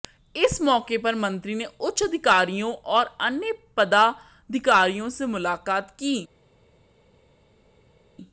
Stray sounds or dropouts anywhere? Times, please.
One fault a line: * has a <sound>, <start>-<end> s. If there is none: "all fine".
all fine